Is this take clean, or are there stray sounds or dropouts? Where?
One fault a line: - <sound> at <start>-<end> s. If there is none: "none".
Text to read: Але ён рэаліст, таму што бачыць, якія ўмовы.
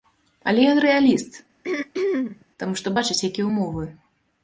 - throat clearing at 1.6-2.5 s